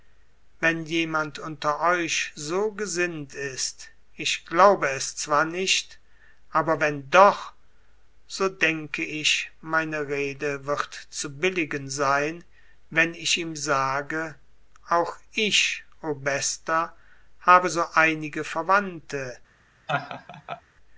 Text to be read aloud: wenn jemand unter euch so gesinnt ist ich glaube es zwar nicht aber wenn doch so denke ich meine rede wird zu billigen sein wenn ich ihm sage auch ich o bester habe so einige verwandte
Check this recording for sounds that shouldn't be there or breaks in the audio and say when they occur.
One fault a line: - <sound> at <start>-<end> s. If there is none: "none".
- laugh at 19.9-20.6 s